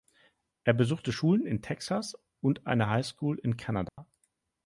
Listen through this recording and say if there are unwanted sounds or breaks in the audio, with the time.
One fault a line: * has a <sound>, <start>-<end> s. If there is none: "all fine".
* has a dropout, 3.9-4.0 s